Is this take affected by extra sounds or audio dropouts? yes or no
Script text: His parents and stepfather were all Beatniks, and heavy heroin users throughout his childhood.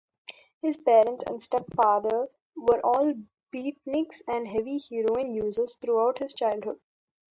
no